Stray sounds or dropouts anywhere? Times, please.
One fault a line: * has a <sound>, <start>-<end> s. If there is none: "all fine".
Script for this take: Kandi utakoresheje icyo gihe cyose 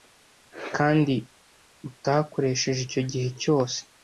all fine